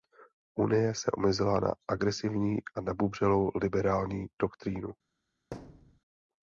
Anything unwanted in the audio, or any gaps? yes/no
yes